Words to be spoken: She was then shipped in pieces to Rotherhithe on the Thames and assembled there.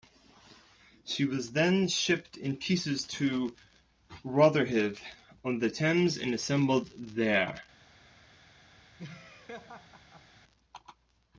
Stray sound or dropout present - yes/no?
yes